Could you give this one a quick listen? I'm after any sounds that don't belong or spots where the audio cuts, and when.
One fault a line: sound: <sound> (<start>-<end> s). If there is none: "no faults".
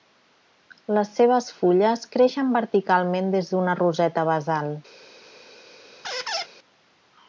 sound: squeak (6.0-6.5 s)